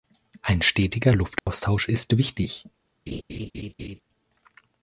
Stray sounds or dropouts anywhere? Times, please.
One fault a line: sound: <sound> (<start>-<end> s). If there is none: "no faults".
sound: dropout (1.4-1.5 s)
sound: laugh (3.1-4.0 s)